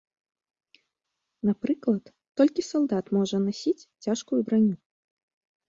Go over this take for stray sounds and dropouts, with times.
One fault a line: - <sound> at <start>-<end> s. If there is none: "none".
none